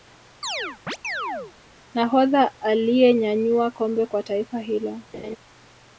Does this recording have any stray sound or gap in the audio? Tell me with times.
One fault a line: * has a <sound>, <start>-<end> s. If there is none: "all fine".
* has a chirp, 0.4-1.5 s
* has a laugh, 5.1-5.4 s